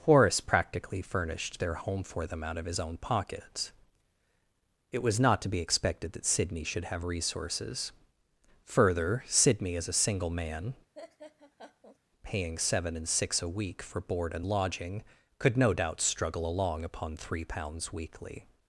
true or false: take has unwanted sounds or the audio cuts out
true